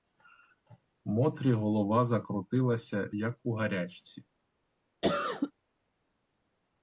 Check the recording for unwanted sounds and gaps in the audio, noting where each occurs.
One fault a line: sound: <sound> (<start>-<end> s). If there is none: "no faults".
sound: cough (5.0-5.5 s)